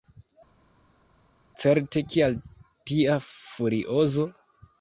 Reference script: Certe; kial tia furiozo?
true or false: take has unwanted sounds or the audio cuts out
false